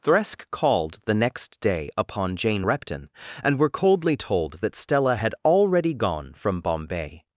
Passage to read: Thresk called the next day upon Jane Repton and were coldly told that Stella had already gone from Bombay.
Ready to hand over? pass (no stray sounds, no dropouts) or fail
pass